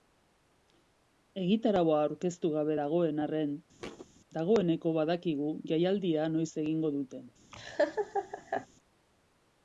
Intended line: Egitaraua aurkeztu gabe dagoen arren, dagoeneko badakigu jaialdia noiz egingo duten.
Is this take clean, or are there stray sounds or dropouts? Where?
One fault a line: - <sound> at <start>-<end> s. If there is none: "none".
- thud at 3.8-4.1 s
- laugh at 7.5-8.7 s